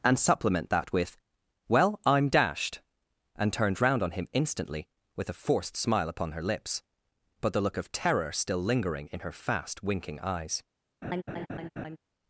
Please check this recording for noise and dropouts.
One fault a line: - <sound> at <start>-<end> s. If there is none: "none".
- laugh at 11.0-12.0 s